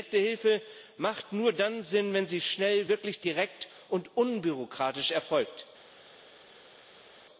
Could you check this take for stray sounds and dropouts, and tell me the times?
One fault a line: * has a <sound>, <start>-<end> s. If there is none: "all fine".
all fine